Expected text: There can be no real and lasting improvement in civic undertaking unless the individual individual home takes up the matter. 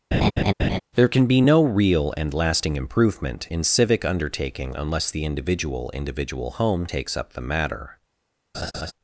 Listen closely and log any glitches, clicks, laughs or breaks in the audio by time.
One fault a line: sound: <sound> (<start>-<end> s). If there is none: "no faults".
sound: laugh (0.1-0.8 s)
sound: laugh (8.5-8.9 s)